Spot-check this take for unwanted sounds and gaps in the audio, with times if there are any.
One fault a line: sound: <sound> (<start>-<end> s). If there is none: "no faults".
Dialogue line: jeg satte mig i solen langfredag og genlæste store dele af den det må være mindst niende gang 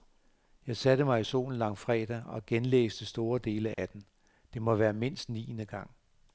sound: dropout (3.7-3.8 s)